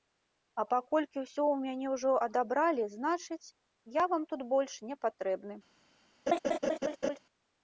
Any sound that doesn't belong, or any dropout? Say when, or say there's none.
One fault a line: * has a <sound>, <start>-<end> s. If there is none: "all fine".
* has a laugh, 6.3-7.2 s